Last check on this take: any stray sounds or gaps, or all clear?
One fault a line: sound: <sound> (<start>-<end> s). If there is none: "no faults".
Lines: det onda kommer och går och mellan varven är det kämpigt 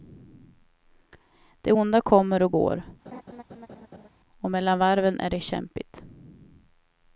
sound: laugh (3.1-4.1 s)